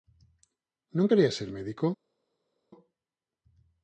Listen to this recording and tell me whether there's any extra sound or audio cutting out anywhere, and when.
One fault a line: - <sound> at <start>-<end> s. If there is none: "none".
none